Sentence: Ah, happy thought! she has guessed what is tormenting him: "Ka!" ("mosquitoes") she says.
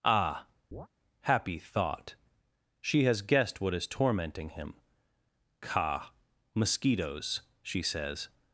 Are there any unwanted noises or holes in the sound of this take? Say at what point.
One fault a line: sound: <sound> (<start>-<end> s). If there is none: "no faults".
sound: chirp (0.7-0.9 s)